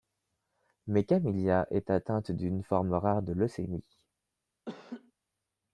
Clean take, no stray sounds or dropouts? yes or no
no